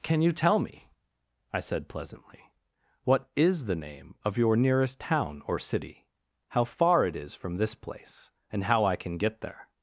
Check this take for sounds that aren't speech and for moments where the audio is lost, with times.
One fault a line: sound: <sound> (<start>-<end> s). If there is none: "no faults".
no faults